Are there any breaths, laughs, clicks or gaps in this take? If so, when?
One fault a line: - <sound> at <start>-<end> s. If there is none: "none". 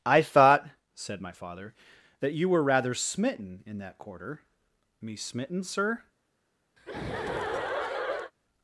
- laugh at 6.8-8.3 s